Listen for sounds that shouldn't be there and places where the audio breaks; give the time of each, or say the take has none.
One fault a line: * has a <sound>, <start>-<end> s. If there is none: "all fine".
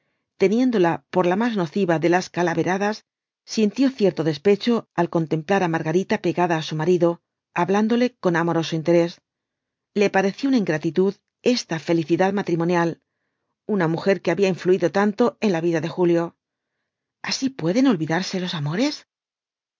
all fine